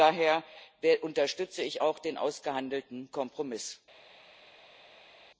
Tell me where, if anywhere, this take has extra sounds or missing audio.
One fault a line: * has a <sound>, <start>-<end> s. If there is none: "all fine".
all fine